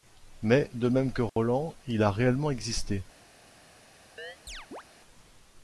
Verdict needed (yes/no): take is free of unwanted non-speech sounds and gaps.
no